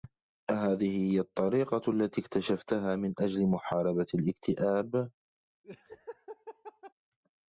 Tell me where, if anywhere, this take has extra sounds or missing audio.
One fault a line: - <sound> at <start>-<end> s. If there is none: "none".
- laugh at 5.6-6.9 s